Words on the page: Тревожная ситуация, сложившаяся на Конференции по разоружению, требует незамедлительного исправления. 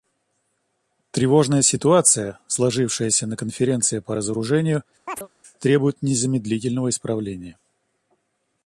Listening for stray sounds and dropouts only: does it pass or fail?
fail